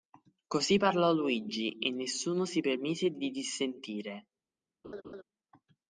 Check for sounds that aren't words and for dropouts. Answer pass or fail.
fail